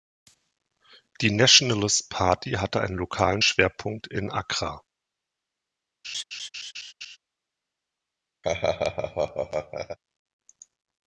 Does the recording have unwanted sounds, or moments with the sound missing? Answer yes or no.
yes